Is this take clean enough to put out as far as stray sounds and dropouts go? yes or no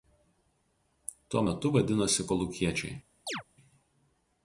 no